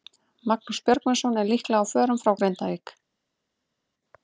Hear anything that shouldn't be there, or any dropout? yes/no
no